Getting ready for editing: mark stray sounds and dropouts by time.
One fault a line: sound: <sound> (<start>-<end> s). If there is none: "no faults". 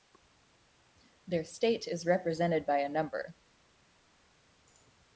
no faults